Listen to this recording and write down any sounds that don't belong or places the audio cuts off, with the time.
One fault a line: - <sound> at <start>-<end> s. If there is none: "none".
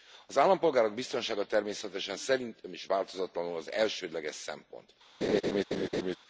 - laugh at 5.2-6.2 s